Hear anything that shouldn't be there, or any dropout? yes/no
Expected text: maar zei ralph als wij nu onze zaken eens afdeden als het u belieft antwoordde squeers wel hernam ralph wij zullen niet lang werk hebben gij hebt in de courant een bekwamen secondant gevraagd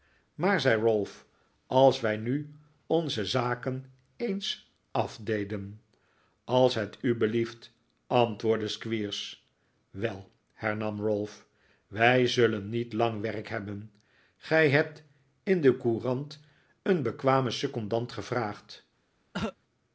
yes